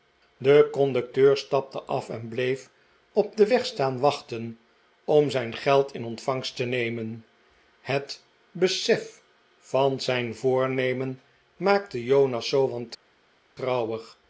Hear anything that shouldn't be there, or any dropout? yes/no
no